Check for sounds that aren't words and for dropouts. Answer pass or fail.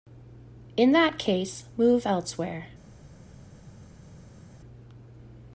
pass